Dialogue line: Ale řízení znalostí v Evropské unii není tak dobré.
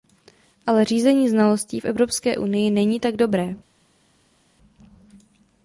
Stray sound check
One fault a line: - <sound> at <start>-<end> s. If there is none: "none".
none